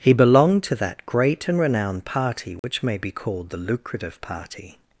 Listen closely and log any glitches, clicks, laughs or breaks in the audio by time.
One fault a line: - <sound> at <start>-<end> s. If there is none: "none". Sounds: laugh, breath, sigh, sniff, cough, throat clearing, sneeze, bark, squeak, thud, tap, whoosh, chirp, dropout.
- dropout at 2.6-2.6 s